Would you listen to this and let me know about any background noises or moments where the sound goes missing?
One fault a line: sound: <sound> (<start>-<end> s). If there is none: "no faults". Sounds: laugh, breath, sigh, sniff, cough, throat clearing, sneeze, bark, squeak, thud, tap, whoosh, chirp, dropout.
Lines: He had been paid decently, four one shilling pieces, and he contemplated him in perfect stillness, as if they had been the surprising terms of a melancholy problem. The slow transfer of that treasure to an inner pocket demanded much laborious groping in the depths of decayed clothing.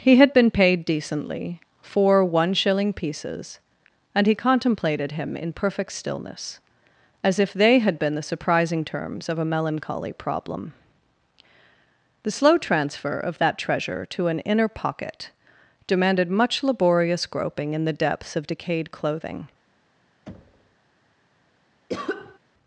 sound: thud (20.3-20.8 s)
sound: cough (21.9-22.4 s)